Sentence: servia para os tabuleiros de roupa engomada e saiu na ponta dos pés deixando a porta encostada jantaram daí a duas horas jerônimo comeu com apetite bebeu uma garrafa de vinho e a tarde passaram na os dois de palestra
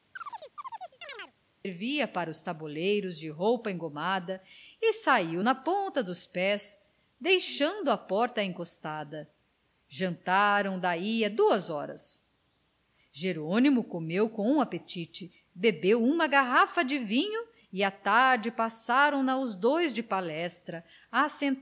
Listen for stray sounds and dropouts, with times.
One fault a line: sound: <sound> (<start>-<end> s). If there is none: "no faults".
sound: chirp (0.2-1.3 s)